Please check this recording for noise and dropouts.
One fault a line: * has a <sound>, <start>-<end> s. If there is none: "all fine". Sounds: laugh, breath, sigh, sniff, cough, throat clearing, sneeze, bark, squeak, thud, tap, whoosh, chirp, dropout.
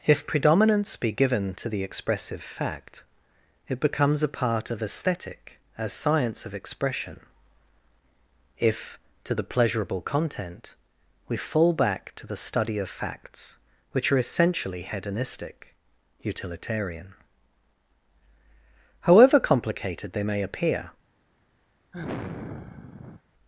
* has a sigh, 21.9-23.2 s